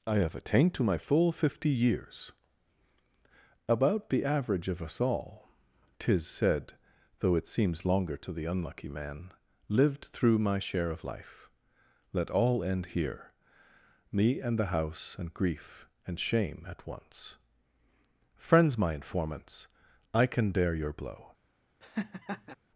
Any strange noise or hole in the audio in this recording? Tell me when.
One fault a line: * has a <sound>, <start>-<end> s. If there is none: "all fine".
* has a laugh, 21.8-22.5 s